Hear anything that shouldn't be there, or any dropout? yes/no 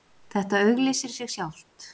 no